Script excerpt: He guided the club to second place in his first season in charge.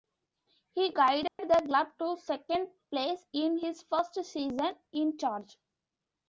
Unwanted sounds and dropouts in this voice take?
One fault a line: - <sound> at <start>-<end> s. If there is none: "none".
- dropout at 1.3-1.4 s